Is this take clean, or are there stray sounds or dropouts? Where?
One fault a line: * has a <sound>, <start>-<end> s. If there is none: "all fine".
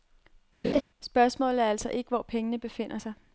* has a laugh, 0.6-0.8 s